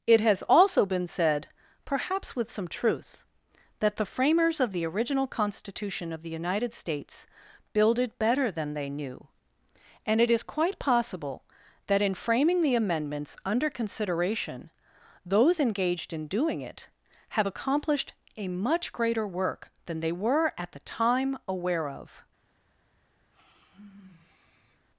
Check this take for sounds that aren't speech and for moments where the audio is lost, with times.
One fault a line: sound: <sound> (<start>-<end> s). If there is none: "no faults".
sound: sigh (23.3-24.9 s)